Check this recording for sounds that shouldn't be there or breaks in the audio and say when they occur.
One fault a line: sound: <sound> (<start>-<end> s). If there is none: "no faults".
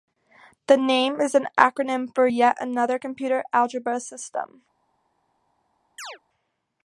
sound: chirp (6.0-6.2 s)